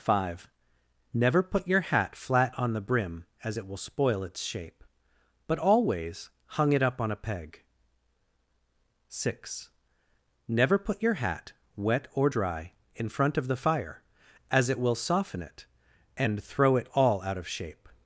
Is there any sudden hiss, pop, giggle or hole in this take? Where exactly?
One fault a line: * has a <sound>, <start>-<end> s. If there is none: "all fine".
all fine